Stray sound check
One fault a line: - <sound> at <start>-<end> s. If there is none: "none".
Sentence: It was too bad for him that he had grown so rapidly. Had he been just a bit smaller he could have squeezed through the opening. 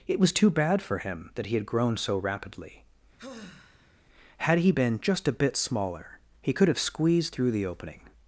- sigh at 3.2-4.0 s